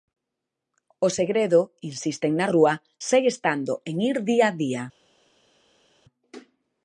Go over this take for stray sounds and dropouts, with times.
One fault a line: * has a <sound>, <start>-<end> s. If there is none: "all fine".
all fine